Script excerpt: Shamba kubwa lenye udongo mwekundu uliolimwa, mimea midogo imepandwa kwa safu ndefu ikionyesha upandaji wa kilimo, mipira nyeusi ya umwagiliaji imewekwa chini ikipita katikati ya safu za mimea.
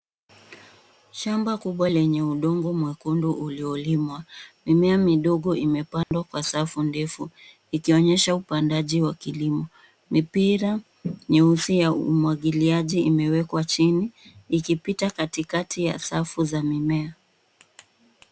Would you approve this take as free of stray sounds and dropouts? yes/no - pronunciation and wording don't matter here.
no